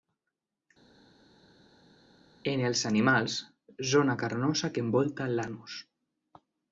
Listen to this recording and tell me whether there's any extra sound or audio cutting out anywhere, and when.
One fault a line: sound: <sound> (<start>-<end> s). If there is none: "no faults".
no faults